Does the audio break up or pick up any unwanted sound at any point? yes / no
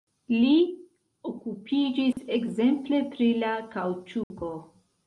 yes